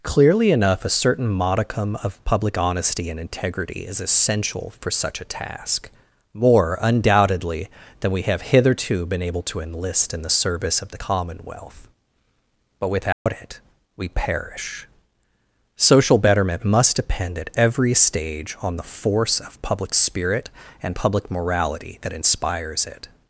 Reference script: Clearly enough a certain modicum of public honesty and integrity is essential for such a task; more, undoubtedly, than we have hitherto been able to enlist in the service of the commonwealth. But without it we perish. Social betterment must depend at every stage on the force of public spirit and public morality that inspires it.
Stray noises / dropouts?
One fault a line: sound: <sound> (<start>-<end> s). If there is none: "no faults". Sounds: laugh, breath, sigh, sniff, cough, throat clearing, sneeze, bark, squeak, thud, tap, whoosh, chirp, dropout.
sound: dropout (13.1-13.3 s)